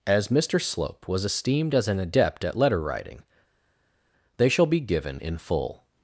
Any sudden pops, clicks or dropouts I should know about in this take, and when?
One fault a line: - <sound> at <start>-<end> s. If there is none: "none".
none